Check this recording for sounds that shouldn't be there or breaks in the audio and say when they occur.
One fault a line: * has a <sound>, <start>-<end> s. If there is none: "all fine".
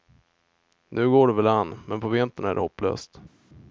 all fine